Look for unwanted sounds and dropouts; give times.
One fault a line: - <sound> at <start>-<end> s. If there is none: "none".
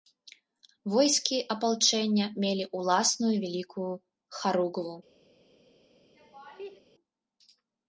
- laugh at 6.1-6.8 s